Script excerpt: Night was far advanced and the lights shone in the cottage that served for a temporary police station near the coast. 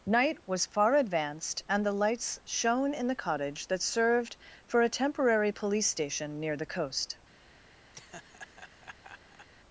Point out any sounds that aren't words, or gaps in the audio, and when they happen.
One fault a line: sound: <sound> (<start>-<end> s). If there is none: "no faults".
sound: laugh (7.9-9.5 s)